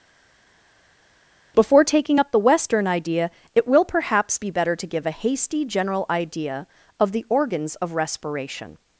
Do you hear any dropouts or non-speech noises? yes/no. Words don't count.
no